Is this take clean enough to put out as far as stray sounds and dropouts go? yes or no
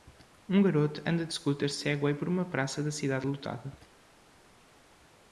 yes